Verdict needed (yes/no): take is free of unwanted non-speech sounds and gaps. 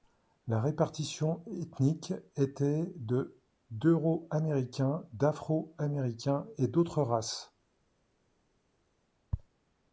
yes